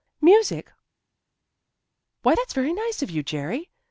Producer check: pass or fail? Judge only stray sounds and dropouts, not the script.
pass